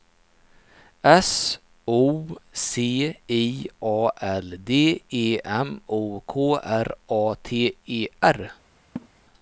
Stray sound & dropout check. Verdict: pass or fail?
fail